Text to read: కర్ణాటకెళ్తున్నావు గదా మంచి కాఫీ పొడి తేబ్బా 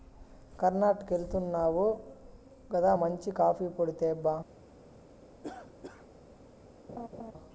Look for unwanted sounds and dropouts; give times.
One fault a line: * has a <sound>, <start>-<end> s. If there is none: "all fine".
* has a cough, 5.4-6.1 s
* has a laugh, 6.9-7.3 s